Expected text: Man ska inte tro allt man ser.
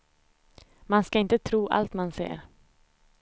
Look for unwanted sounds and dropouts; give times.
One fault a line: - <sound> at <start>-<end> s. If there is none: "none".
none